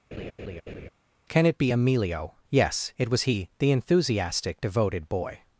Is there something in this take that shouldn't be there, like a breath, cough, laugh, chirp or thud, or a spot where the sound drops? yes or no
yes